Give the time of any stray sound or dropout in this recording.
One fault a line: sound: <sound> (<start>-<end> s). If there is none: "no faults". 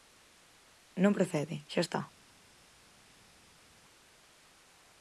no faults